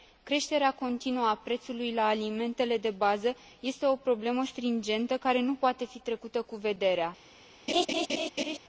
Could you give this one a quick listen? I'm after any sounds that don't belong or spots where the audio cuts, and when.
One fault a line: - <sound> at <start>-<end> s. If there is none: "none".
- laugh at 7.7-8.6 s